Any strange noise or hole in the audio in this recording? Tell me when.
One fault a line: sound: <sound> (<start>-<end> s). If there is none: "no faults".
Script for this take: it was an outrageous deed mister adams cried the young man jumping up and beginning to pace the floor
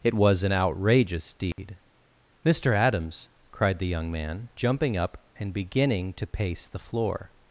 sound: dropout (1.5-1.6 s)